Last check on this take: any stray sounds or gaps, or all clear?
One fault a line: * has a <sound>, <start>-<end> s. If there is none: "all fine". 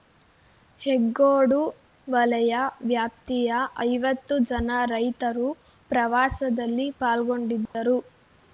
* has a dropout, 7.7-7.7 s